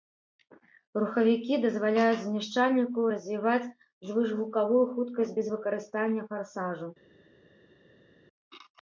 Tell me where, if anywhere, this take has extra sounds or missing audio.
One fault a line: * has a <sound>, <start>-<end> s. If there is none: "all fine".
all fine